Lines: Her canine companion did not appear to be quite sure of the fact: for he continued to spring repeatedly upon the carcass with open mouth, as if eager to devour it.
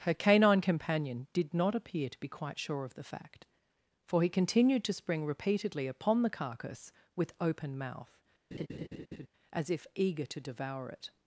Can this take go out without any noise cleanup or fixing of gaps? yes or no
no